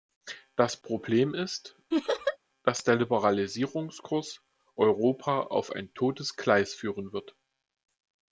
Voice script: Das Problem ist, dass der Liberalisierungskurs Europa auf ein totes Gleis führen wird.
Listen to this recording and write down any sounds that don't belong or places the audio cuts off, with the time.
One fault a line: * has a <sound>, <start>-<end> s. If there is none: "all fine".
* has a laugh, 1.9-2.4 s